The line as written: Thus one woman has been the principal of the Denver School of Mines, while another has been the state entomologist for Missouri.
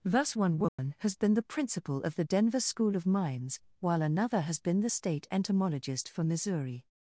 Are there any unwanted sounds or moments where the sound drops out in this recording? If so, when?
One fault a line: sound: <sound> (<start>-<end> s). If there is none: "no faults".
sound: dropout (0.7-0.8 s)